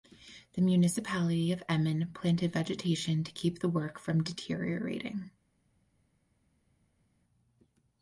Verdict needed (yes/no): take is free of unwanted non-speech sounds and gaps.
yes